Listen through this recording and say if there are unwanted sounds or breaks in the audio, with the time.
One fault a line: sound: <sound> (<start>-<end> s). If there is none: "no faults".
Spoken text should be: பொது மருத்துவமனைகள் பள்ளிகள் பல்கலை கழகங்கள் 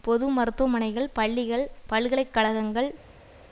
no faults